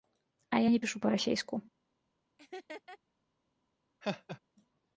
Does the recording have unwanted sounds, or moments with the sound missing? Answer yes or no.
yes